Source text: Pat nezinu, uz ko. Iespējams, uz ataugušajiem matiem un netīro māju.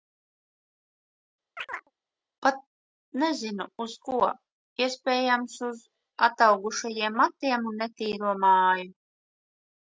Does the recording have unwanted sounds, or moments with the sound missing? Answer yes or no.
yes